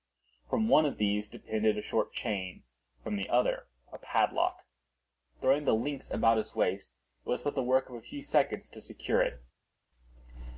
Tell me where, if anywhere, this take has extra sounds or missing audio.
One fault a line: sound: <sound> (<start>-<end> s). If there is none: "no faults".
no faults